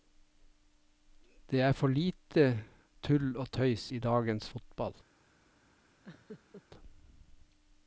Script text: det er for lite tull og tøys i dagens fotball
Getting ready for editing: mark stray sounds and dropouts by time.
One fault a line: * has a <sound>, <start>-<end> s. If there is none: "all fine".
* has a laugh, 6.0-6.6 s